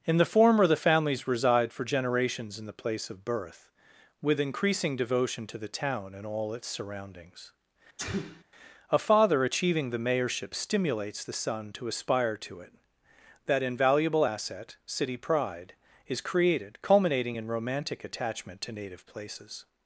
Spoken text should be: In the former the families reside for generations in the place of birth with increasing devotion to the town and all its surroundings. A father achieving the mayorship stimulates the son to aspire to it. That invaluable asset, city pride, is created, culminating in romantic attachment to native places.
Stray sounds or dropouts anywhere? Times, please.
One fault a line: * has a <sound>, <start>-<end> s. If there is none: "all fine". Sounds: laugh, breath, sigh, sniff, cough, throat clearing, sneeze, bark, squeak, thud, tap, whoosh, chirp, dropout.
* has a sneeze, 8.0-8.4 s